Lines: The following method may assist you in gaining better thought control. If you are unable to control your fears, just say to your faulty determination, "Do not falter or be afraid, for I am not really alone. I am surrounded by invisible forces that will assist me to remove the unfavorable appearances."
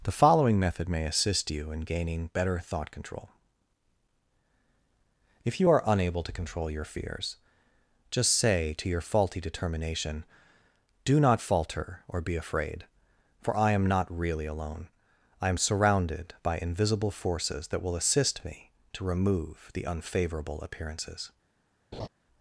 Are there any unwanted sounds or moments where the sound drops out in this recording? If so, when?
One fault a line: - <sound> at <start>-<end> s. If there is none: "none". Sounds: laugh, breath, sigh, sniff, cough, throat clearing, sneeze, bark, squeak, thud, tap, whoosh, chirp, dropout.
- laugh at 21.9-22.1 s